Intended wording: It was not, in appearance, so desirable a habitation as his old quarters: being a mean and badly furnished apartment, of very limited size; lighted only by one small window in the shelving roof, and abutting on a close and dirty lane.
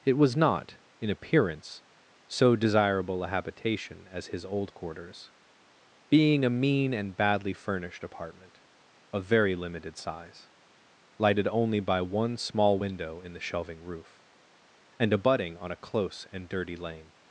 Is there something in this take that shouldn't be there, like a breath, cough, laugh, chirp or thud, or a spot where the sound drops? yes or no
no